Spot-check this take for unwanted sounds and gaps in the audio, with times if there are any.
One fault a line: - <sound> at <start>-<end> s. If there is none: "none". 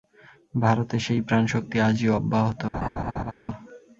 - laugh at 2.7-3.3 s